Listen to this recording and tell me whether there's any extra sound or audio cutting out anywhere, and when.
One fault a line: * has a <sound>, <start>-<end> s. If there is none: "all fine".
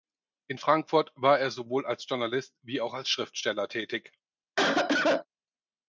* has a cough, 4.6-5.3 s